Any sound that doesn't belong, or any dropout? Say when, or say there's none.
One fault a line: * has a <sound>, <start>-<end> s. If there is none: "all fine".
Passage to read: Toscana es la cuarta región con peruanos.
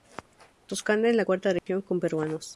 * has a dropout, 1.6-1.7 s